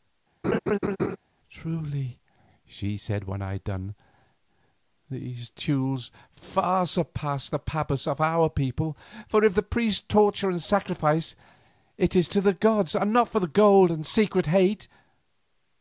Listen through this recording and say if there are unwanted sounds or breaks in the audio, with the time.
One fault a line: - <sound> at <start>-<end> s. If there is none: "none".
- laugh at 0.4-1.2 s